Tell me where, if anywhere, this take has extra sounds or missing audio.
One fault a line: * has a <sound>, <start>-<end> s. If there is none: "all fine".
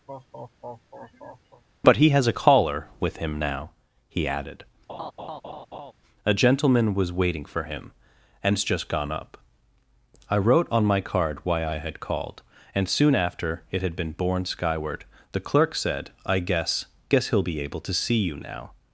* has a laugh, 0.1-1.6 s
* has a laugh, 4.9-5.9 s